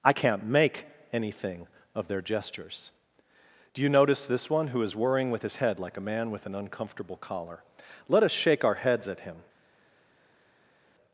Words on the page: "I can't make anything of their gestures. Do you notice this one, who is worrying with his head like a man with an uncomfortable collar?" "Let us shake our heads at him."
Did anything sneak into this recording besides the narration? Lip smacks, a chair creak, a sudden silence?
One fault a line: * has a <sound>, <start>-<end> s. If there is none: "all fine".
all fine